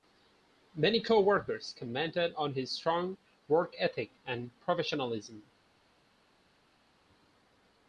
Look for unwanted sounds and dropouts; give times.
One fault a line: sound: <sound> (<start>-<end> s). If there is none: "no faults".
no faults